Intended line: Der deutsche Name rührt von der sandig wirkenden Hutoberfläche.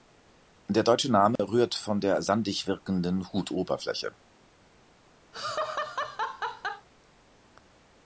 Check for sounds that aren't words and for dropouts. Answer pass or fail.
fail